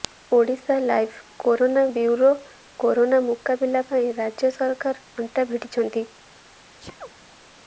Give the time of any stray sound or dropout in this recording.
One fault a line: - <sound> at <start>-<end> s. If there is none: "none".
- sneeze at 6.8-7.4 s